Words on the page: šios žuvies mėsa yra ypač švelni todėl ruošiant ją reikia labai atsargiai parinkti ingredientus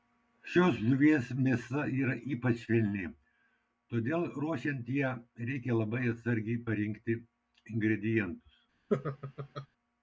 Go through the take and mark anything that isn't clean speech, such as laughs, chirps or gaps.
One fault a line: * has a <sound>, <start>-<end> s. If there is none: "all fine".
* has a laugh, 8.9-9.7 s